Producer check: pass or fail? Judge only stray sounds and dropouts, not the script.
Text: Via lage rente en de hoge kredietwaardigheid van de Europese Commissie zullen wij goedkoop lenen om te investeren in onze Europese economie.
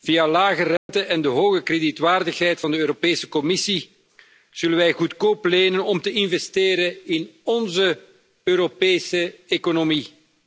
fail